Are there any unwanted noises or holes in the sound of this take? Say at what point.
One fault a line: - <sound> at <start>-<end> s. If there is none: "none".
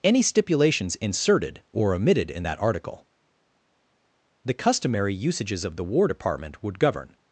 none